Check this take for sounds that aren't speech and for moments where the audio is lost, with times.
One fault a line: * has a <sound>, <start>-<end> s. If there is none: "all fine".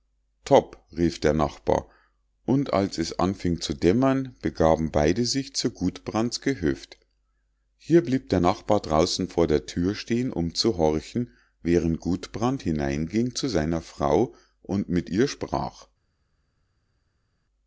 all fine